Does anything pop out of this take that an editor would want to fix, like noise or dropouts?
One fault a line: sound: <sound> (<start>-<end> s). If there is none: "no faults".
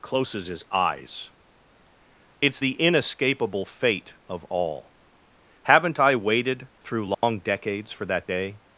sound: dropout (7.1-7.2 s)